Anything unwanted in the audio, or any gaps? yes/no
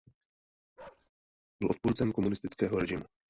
yes